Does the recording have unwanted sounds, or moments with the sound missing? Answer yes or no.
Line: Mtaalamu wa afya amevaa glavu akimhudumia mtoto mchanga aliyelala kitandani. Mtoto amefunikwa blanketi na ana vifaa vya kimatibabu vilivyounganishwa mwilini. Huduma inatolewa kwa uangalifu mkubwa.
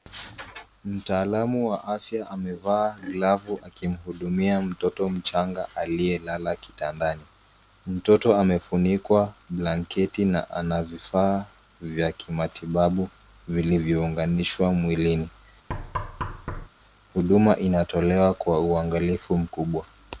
yes